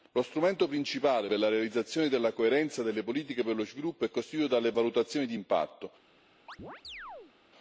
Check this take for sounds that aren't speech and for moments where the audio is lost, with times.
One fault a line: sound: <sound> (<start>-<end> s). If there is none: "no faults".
sound: chirp (6.5-7.3 s)